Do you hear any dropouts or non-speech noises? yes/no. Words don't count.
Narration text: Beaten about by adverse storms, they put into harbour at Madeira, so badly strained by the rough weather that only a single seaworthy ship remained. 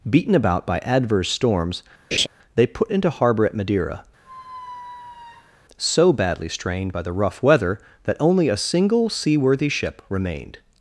yes